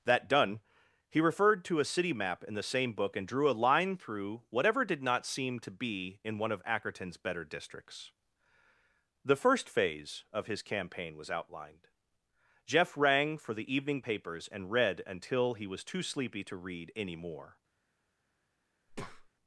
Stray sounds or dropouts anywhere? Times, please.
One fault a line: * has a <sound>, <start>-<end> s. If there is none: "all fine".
* has a breath, 18.9-19.3 s